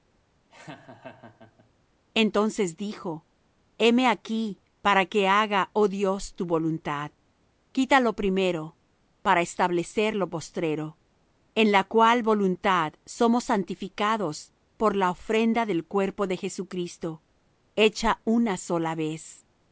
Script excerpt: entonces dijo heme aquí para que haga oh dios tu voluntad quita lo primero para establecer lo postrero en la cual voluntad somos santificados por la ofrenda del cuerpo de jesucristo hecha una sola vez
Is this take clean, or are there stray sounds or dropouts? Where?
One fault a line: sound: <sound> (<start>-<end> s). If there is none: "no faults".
sound: laugh (0.5-1.7 s)